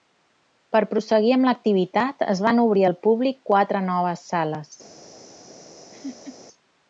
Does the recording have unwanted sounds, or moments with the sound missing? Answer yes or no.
yes